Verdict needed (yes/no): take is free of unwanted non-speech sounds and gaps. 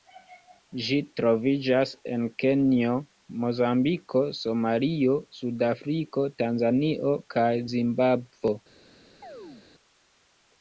no